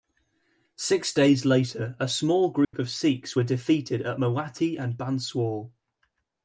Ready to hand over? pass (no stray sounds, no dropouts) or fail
fail